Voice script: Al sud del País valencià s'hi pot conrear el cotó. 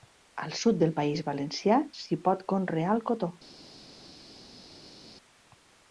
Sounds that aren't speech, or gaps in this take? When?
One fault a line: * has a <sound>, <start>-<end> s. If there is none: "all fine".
all fine